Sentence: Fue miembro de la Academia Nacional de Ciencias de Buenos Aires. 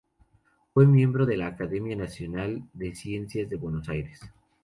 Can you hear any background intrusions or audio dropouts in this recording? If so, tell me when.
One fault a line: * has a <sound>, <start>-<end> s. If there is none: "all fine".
all fine